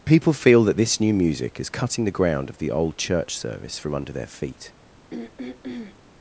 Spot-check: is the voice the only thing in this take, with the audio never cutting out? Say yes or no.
no